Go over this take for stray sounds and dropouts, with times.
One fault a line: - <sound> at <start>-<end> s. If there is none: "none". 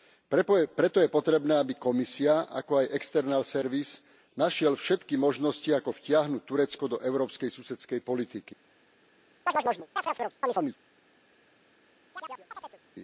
- chirp at 9.5-10.8 s
- chirp at 12.1-12.8 s